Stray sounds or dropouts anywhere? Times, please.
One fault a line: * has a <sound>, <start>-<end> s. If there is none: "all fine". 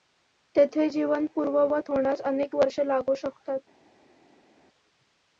all fine